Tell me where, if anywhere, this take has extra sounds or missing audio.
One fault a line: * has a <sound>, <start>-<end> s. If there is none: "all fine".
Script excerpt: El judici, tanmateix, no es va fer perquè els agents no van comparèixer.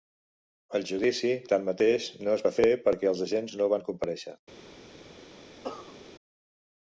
* has a cough, 5.6-6.0 s